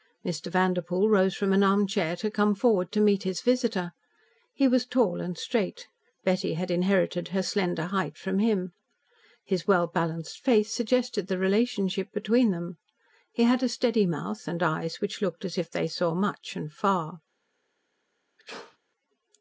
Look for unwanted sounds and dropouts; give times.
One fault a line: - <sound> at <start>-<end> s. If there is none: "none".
- sneeze at 18.4-18.8 s